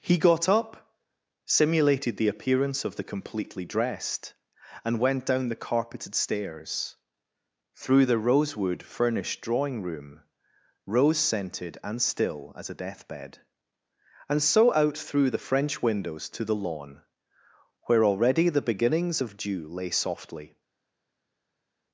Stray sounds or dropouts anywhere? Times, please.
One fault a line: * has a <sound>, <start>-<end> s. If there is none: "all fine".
all fine